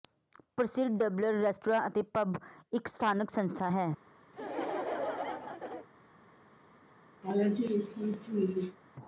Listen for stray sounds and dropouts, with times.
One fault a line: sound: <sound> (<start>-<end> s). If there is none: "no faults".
sound: laugh (4.3-5.9 s)
sound: laugh (7.2-8.8 s)